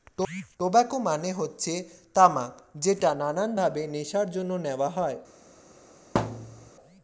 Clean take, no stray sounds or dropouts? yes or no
no